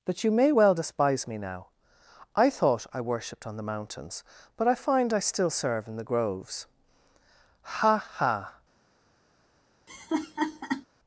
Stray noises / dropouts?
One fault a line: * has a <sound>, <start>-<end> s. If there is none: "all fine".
* has a laugh, 9.9-10.9 s